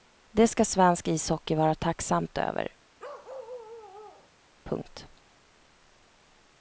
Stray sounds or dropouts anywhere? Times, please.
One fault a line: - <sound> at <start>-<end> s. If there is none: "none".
- bark at 3.0-4.3 s